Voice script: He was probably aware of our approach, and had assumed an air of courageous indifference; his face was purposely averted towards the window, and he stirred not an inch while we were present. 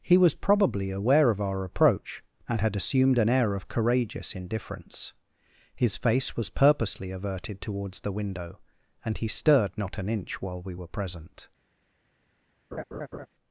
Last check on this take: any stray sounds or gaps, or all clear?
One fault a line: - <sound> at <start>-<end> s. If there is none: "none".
- laugh at 12.7-13.3 s